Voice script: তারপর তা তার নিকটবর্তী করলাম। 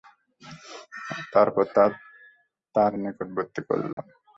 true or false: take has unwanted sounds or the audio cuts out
true